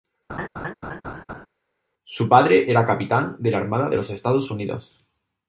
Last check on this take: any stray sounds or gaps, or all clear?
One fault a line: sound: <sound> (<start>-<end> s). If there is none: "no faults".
sound: laugh (0.3-1.5 s)